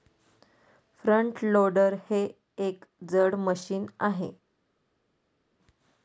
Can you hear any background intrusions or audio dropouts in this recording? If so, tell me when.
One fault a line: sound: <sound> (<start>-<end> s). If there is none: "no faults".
no faults